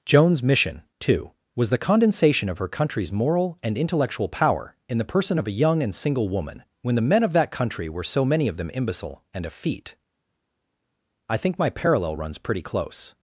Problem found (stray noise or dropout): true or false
false